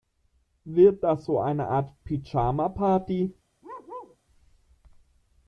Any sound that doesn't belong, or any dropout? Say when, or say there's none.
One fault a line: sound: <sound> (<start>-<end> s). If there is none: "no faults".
sound: bark (3.6-4.2 s)